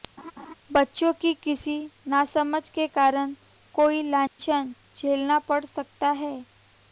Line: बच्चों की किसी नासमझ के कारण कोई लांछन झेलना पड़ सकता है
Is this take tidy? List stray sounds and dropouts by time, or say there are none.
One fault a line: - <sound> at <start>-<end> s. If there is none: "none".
- laugh at 0.2-0.5 s
- dropout at 4.3-4.4 s